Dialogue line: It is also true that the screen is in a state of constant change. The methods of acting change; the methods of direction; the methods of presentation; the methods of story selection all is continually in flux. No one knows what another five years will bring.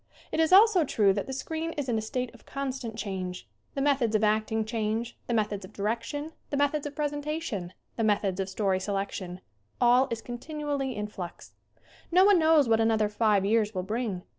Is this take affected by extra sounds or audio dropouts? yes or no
no